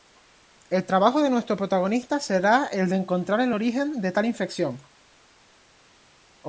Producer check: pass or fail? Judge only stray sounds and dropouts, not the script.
pass